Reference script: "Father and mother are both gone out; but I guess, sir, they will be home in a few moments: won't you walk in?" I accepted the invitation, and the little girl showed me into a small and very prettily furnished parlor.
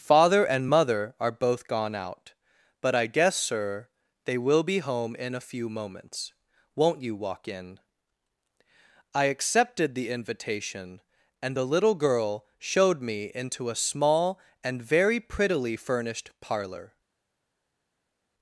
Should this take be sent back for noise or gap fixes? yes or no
no